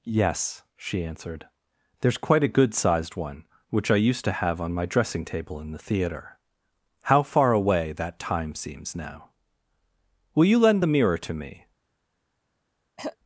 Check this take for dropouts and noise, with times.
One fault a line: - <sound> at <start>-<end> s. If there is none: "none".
- throat clearing at 13.0-13.2 s